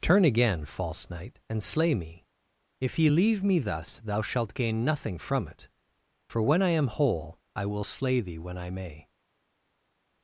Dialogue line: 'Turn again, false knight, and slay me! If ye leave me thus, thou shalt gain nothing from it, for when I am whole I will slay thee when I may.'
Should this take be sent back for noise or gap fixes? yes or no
no